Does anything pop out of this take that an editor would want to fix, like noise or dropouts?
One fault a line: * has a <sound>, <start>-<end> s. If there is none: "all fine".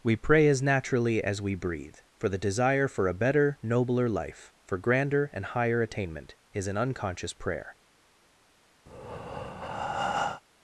* has a breath, 8.9-10.4 s